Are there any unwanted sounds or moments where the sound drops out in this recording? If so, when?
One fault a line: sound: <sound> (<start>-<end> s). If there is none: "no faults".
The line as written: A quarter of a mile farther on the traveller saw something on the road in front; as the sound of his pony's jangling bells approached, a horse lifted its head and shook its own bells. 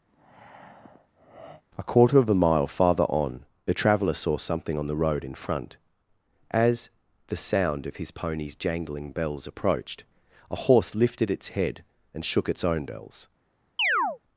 sound: breath (0.1-1.6 s)
sound: chirp (13.8-14.2 s)